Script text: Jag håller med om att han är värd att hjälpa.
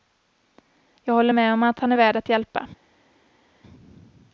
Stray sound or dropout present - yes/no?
no